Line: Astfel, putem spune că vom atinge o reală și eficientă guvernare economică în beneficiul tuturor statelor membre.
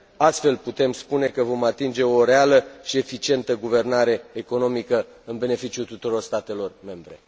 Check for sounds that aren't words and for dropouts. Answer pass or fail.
pass